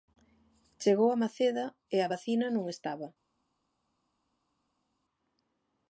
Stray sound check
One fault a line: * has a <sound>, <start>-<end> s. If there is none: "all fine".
all fine